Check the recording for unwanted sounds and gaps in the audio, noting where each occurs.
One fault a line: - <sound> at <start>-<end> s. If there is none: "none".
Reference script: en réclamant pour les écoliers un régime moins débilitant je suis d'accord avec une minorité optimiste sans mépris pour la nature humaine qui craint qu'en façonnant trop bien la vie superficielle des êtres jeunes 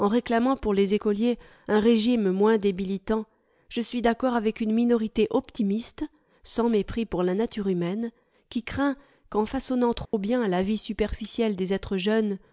- dropout at 10.1-10.1 s